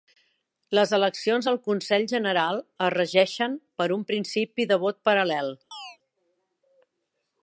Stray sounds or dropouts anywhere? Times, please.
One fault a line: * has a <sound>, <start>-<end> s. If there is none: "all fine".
* has a chirp, 5.7-6.0 s